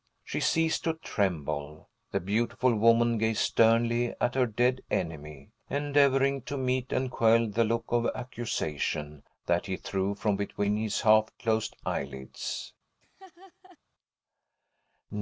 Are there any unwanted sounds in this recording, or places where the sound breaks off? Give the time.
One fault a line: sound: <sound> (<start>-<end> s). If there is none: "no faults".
sound: laugh (13.0-13.8 s)